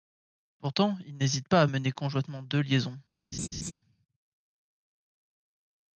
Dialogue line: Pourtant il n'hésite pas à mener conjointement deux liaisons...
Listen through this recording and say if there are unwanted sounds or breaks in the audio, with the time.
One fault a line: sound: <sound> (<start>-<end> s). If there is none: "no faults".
sound: laugh (3.3-3.7 s)